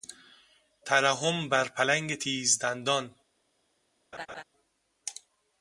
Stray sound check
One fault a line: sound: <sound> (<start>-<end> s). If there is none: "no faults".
sound: laugh (4.1-4.4 s)